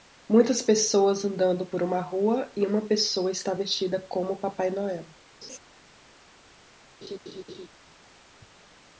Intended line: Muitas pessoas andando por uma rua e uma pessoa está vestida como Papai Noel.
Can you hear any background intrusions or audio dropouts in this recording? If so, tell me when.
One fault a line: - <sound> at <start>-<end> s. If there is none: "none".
- laugh at 5.4-5.6 s
- laugh at 7.0-7.7 s